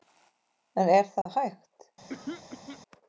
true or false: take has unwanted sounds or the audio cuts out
true